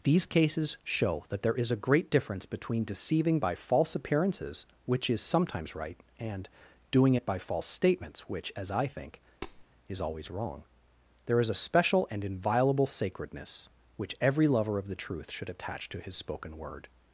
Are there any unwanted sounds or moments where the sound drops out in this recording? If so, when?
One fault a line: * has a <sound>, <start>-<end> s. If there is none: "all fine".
* has a tap, 9.4-9.6 s